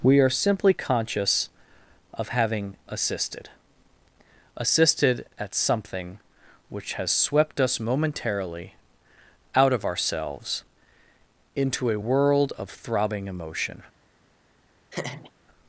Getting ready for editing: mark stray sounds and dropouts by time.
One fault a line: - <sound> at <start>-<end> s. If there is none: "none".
- laugh at 14.9-15.3 s